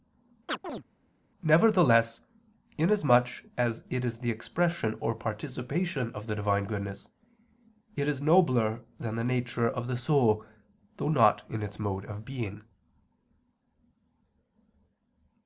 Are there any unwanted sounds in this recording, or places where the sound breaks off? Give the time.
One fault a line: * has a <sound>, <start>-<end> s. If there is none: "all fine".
* has a chirp, 0.5-0.8 s